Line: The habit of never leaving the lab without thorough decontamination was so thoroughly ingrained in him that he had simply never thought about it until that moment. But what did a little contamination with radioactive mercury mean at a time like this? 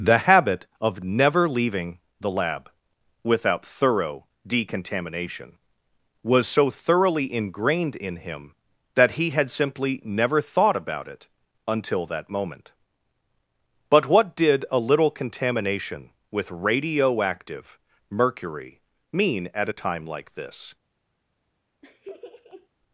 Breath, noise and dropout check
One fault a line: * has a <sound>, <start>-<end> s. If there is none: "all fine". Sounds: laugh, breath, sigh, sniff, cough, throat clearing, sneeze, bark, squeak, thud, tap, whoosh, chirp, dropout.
* has a laugh, 21.8-22.7 s